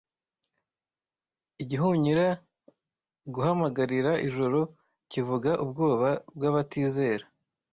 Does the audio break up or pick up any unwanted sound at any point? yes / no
no